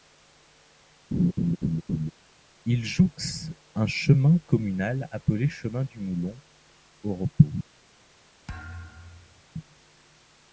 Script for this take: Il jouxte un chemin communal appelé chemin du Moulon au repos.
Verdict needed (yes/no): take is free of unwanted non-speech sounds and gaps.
no